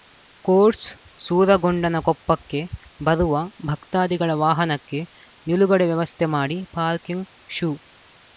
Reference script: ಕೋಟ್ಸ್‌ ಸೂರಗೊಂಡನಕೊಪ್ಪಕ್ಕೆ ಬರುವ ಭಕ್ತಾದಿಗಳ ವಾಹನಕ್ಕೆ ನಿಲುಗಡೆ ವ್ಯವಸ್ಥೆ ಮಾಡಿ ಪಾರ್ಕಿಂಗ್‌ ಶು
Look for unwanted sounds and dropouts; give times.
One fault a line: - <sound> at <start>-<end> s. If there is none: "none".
none